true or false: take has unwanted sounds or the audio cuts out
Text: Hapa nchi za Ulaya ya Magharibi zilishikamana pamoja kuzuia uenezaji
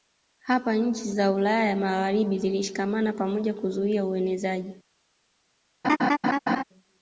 true